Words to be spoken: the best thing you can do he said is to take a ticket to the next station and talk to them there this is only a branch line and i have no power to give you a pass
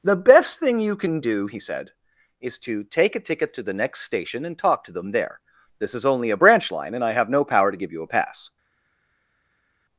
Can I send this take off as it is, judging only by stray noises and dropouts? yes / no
yes